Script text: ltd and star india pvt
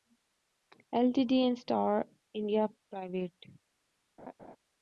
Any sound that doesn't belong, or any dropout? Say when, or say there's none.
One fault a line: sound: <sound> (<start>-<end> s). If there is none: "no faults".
sound: laugh (4.2-4.6 s)